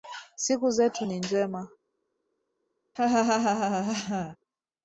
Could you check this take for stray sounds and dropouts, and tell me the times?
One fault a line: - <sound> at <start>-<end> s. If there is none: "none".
- laugh at 3.0-4.4 s